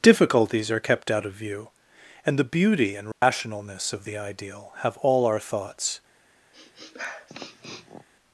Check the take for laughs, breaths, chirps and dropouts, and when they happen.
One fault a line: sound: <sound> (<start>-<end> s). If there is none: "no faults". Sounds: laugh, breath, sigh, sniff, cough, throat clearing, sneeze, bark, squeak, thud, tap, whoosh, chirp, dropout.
sound: dropout (3.1-3.2 s)
sound: sniff (6.5-8.1 s)